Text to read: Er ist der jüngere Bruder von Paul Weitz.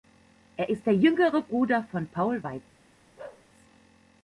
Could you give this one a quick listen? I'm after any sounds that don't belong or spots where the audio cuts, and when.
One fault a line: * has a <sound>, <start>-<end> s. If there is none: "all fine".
* has a bark, 3.2-3.5 s